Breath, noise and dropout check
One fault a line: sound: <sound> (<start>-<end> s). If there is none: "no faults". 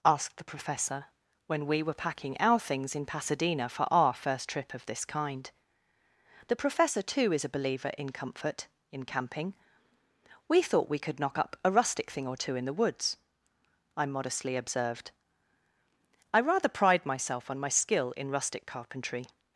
no faults